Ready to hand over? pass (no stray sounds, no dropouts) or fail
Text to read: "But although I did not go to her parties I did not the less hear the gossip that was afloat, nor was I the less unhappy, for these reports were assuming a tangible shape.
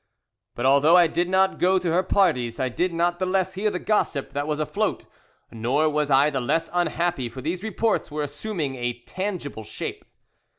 pass